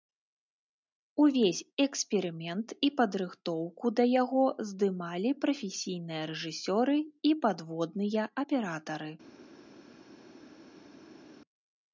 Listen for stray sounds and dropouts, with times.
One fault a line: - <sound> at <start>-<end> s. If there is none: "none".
none